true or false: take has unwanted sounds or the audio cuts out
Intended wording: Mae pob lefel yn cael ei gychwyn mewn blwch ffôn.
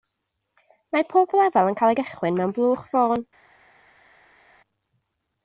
false